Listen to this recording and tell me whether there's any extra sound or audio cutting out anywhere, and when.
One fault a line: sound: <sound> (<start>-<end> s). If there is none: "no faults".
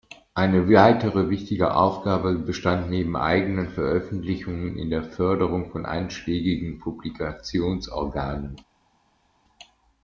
no faults